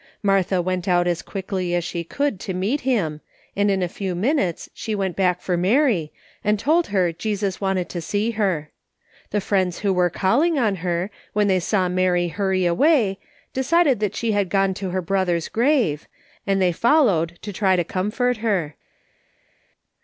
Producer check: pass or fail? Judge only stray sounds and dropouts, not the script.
pass